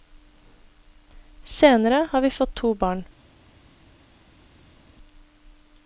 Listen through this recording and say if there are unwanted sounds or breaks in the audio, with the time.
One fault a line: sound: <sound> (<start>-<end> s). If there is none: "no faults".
no faults